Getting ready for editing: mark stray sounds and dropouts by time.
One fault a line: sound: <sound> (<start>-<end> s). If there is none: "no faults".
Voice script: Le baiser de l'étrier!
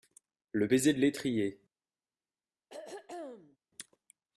sound: throat clearing (2.7-3.6 s)